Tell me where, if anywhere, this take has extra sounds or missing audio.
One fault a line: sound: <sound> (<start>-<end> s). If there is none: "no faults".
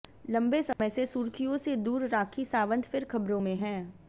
sound: dropout (0.7-0.8 s)